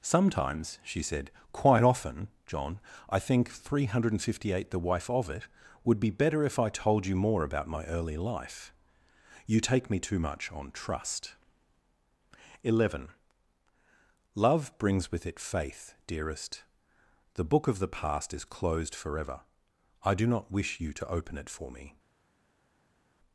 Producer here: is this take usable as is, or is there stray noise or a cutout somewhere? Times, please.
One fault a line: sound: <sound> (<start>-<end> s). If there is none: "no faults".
no faults